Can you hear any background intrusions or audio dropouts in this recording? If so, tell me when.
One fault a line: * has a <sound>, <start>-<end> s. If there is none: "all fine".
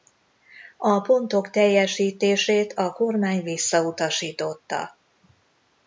all fine